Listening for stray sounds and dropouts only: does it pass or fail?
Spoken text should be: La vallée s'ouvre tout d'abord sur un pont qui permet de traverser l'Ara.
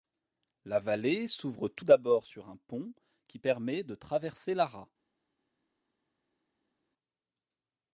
pass